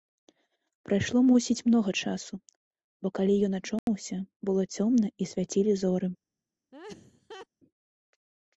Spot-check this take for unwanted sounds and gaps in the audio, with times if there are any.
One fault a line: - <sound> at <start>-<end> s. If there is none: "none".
- dropout at 3.8-3.9 s
- laugh at 6.7-7.5 s